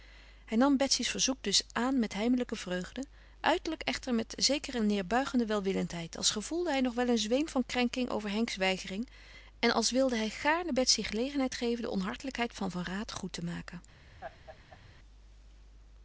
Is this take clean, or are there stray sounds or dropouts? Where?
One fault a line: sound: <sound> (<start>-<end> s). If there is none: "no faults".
sound: laugh (14.2-14.8 s)